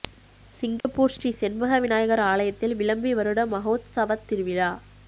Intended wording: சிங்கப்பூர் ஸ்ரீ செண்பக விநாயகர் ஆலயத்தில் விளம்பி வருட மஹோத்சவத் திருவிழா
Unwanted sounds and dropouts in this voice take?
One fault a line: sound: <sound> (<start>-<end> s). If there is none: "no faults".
sound: dropout (0.8-0.8 s)